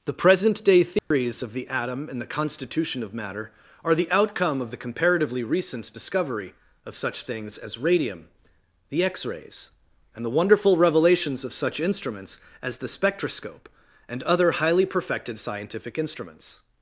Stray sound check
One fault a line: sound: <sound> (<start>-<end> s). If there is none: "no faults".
sound: dropout (1.0-1.1 s)